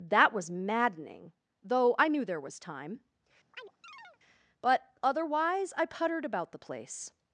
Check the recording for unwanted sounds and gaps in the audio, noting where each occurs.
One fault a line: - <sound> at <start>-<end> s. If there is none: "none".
- chirp at 3.5-4.2 s